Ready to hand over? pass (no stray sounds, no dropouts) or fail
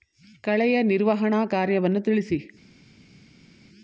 pass